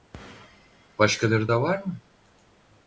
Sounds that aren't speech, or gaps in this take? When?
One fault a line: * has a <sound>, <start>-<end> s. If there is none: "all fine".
all fine